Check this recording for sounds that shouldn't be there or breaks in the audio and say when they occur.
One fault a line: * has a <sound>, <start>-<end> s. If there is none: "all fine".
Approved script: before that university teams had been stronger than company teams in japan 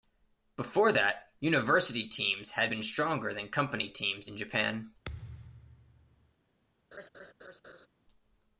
* has a thud, 5.1-6.4 s
* has a laugh, 6.9-7.9 s